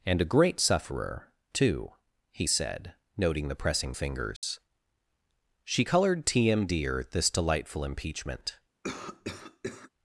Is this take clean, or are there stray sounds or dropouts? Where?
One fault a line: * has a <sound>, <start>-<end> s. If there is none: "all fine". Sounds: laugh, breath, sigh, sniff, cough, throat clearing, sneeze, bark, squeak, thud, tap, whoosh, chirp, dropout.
* has a dropout, 4.4-4.4 s
* has a cough, 8.8-9.9 s